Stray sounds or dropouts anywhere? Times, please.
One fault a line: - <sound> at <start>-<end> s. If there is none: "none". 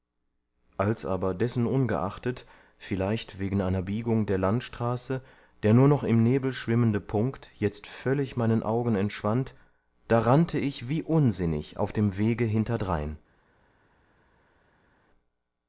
none